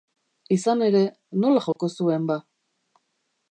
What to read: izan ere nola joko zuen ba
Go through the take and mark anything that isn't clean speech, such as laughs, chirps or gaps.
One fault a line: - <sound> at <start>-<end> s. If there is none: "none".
- dropout at 1.7-1.8 s